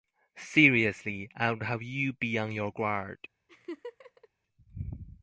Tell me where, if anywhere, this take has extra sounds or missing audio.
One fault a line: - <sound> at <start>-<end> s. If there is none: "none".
- laugh at 3.5-4.3 s